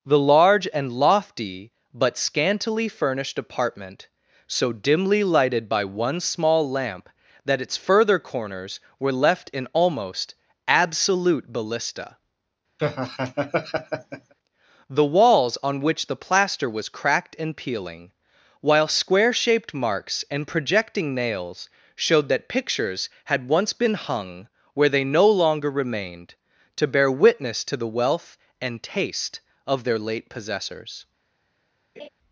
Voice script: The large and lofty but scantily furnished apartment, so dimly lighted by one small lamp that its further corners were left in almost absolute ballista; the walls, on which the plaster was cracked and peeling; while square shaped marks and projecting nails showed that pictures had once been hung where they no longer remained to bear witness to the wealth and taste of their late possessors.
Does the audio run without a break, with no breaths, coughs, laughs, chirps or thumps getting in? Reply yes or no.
no